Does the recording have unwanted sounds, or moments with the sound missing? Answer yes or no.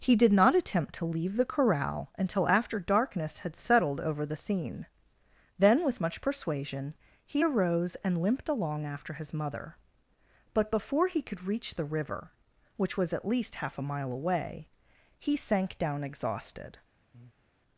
yes